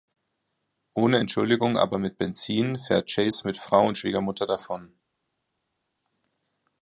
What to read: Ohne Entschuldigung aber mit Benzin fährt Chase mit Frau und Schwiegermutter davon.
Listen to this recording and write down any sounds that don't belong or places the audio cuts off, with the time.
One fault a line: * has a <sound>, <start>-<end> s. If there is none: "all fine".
all fine